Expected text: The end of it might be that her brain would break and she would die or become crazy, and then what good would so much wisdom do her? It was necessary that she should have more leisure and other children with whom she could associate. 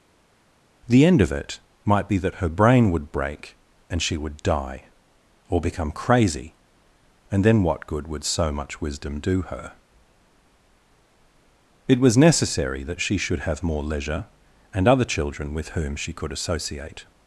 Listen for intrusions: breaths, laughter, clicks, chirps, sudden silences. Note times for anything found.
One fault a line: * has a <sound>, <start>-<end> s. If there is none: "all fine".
all fine